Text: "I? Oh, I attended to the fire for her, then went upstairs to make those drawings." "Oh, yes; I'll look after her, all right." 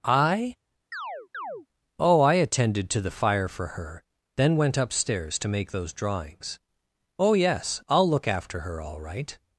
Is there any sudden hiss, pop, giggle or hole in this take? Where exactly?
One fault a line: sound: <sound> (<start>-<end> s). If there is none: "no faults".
sound: chirp (0.9-1.7 s)